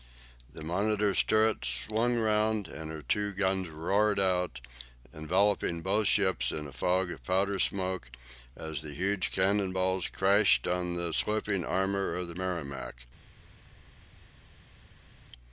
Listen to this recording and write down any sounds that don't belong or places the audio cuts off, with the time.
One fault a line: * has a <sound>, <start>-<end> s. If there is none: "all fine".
all fine